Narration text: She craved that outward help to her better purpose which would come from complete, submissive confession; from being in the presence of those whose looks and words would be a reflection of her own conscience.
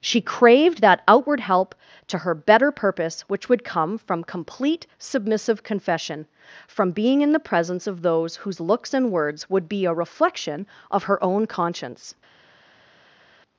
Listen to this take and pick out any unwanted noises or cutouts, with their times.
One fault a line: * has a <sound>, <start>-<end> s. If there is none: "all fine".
all fine